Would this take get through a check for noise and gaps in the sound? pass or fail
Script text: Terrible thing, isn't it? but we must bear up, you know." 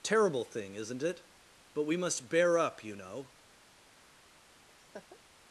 fail